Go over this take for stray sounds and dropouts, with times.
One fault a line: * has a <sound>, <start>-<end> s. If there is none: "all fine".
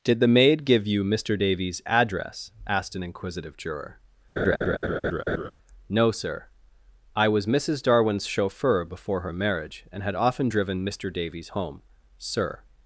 * has a laugh, 4.4-5.5 s